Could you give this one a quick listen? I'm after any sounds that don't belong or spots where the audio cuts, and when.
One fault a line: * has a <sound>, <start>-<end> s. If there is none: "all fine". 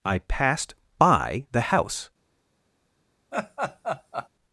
* has a laugh, 3.3-4.3 s